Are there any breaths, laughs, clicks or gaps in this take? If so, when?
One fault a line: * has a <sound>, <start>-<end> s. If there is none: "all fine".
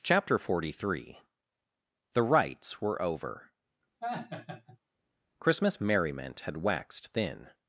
* has a laugh, 4.0-4.8 s